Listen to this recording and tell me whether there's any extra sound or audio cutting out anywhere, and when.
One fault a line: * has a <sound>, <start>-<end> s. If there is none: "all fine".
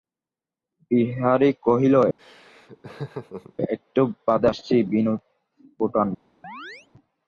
* has a laugh, 2.2-3.5 s
* has a chirp, 6.4-6.9 s